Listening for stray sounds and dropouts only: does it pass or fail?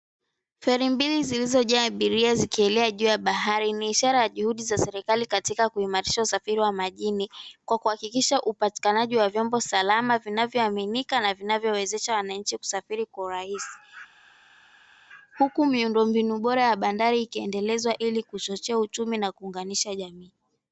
pass